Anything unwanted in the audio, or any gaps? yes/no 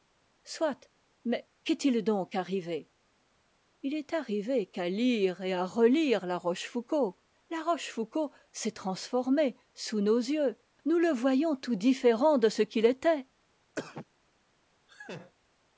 yes